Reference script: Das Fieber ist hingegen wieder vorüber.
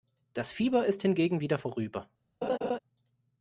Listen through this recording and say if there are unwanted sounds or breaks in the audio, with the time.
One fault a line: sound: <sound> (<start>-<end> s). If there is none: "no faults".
sound: laugh (2.4-2.8 s)